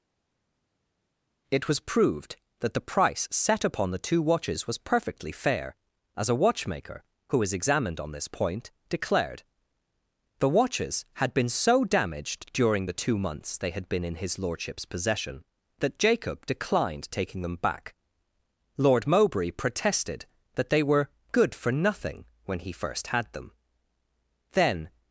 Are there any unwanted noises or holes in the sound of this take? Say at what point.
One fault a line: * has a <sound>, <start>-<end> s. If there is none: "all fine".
all fine